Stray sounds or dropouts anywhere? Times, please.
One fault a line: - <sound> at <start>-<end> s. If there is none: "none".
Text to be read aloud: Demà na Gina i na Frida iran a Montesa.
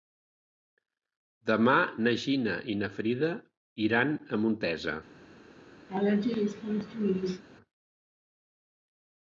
- laugh at 5.9-7.4 s